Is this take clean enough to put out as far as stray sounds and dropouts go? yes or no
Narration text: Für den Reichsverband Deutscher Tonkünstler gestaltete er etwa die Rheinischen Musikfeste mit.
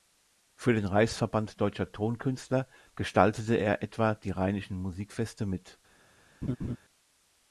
no